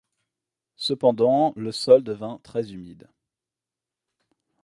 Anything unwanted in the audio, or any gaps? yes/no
no